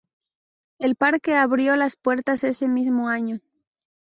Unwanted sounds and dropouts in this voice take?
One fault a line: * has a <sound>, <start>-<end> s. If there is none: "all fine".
all fine